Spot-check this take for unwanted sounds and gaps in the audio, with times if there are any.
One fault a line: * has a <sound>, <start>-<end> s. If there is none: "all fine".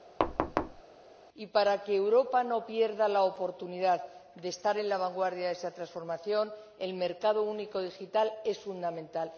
* has a thud, 0.2-0.8 s